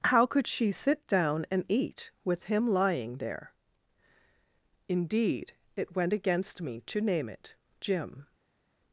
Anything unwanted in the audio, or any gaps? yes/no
no